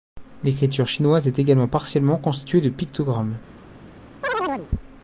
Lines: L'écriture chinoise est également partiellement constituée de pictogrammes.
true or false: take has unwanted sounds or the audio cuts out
true